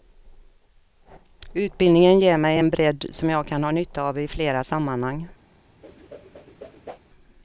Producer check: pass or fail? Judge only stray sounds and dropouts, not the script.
fail